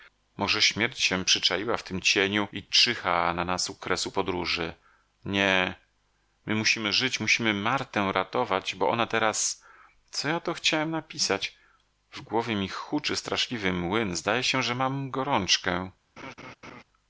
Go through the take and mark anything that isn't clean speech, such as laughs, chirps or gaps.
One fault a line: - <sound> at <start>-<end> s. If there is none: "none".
- laugh at 16.2-16.8 s